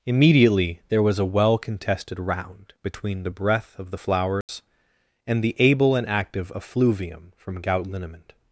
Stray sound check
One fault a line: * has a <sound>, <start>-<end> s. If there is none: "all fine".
* has a dropout, 4.4-4.5 s